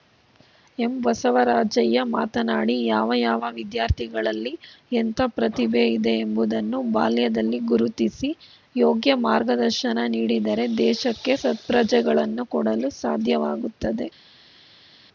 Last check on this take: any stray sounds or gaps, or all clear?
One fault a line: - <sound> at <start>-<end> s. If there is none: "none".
none